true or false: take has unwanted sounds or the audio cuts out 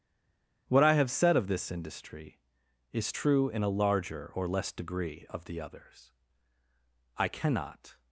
false